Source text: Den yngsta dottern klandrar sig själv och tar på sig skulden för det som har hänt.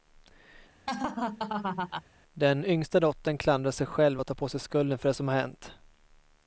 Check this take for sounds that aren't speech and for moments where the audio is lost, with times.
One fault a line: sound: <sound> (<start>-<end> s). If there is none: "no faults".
sound: laugh (0.9-2.0 s)